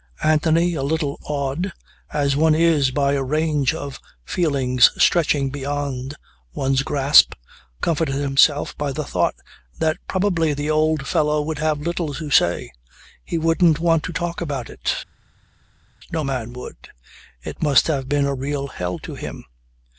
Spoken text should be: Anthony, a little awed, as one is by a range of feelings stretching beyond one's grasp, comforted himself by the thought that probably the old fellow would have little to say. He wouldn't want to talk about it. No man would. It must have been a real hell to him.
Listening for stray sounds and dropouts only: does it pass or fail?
pass